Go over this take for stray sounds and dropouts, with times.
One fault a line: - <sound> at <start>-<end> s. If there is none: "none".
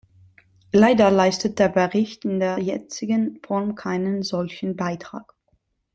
none